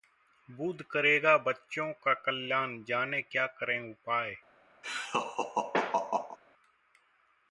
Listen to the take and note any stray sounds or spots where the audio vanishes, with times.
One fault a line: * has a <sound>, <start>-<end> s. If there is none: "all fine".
* has a laugh, 4.8-6.4 s